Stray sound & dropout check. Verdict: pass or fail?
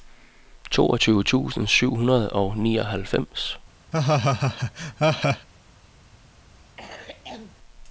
fail